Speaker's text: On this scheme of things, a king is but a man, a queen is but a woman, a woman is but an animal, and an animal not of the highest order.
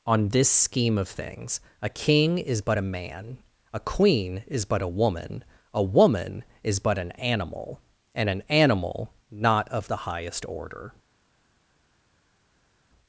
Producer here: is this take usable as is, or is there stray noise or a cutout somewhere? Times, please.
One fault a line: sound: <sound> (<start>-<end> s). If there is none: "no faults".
no faults